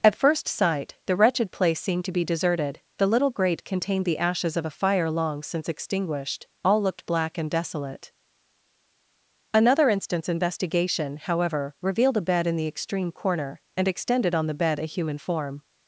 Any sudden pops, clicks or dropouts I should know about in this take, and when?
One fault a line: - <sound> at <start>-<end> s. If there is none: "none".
none